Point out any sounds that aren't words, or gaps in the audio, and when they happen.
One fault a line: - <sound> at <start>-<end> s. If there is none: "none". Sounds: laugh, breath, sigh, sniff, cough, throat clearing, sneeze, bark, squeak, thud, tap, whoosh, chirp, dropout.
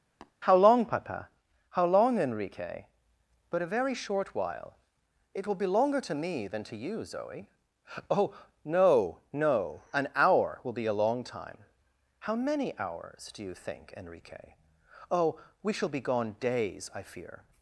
- tap at 0.2-0.3 s